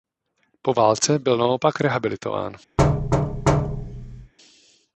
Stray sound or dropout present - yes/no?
yes